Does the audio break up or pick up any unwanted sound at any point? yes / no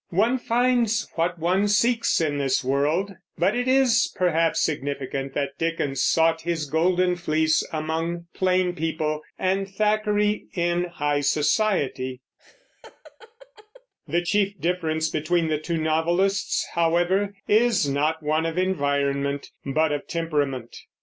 yes